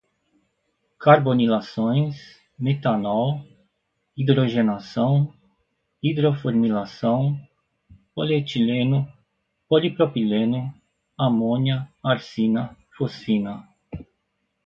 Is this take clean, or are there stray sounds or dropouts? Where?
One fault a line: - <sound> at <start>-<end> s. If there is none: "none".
none